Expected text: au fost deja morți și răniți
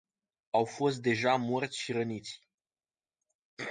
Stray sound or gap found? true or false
false